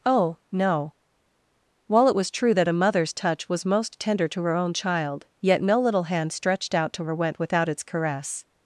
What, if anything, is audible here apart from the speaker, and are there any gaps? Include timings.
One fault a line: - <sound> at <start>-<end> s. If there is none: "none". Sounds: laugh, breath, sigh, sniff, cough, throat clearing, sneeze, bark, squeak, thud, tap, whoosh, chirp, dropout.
none